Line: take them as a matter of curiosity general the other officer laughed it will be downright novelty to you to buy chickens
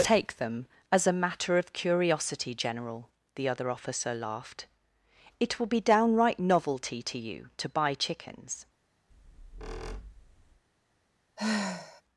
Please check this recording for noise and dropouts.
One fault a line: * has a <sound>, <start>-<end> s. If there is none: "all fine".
* has a squeak, 9.1-10.6 s
* has a sigh, 11.4-12.0 s